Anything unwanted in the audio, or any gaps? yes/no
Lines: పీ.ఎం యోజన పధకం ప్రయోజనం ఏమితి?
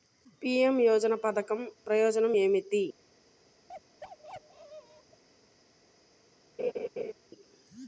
yes